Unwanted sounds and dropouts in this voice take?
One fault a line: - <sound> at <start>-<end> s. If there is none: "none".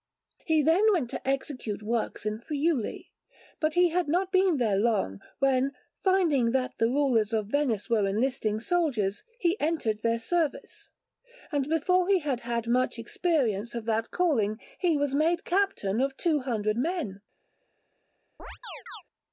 - chirp at 18.4-19.0 s